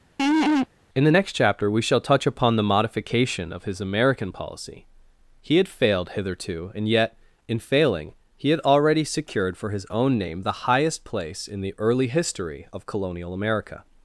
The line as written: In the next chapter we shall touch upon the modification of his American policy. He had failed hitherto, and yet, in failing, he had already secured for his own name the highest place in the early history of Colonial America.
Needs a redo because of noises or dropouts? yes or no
yes